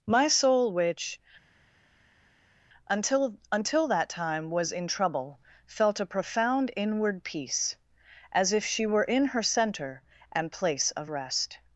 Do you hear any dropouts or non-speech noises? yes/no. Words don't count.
no